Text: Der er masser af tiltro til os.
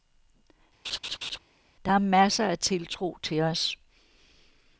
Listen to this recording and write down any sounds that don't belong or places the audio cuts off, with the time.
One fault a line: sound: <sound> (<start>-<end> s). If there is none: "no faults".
sound: laugh (0.8-1.4 s)